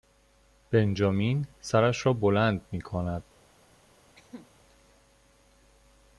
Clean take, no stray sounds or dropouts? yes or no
no